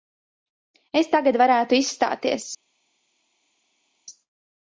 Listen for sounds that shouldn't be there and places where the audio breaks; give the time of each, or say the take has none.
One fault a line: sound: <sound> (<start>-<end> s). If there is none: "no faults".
no faults